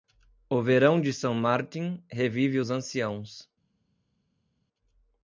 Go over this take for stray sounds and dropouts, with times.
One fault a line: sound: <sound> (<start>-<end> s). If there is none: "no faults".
no faults